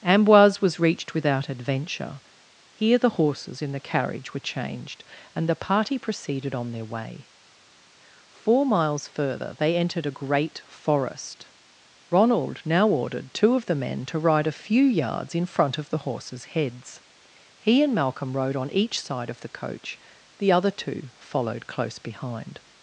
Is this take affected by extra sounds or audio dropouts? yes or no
no